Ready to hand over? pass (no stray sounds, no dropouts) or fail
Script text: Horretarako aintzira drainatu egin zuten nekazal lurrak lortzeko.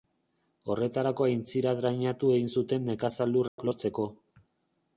fail